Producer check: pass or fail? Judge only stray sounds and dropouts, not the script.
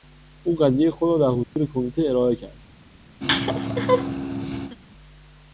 fail